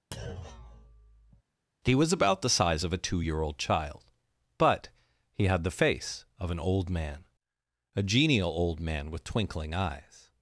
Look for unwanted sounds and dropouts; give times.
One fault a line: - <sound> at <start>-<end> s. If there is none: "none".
- thud at 0.1-1.4 s